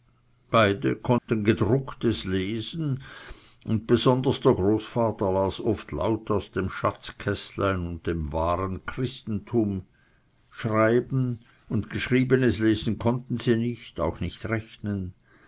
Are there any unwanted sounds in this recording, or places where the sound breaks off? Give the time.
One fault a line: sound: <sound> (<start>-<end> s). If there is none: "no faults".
sound: dropout (1.2-1.3 s)